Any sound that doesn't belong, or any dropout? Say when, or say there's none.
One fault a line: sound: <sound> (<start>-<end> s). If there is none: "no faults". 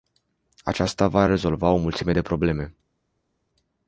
no faults